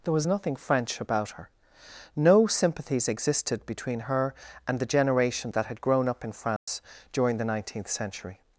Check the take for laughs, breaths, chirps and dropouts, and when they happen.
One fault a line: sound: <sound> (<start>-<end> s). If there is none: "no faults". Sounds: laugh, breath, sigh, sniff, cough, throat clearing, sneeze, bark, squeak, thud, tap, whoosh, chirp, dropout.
sound: dropout (6.6-6.7 s)